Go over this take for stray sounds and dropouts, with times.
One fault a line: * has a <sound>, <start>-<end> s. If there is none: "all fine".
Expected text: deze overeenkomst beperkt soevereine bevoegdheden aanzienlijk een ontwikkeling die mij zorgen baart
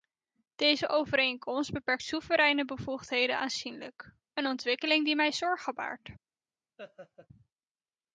* has a laugh, 6.8-7.3 s